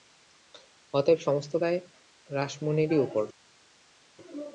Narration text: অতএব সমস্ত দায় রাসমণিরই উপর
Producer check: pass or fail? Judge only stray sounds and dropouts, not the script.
pass